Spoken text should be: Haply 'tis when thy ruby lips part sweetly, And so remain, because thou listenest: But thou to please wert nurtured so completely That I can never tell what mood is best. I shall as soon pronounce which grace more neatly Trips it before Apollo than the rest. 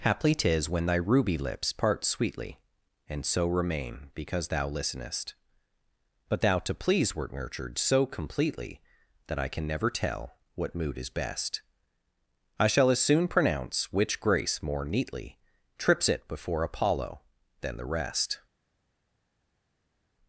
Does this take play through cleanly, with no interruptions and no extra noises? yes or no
yes